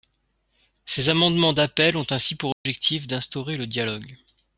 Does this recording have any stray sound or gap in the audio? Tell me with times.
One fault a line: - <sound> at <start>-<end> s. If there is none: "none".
- dropout at 2.5-2.7 s